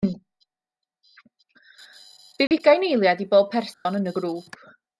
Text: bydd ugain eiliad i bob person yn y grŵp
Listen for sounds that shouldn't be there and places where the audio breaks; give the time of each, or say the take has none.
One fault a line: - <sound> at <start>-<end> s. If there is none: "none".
- dropout at 2.5-2.5 s
- dropout at 3.7-3.9 s